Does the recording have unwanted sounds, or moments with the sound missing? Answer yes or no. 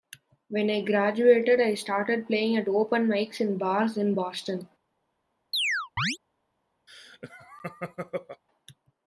yes